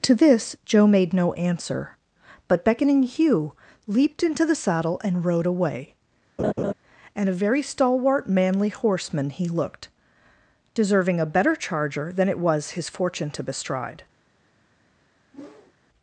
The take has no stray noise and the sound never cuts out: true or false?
false